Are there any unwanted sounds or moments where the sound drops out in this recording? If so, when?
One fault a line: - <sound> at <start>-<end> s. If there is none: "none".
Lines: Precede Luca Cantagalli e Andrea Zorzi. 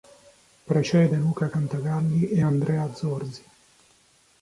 none